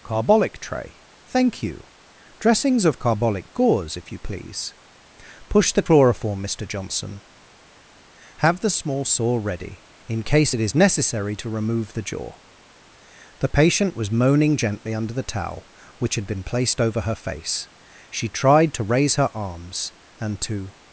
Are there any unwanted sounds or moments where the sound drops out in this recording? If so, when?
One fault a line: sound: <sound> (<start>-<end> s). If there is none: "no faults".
no faults